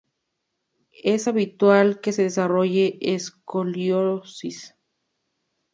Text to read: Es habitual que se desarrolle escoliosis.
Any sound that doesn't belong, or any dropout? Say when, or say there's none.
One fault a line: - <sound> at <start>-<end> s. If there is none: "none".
none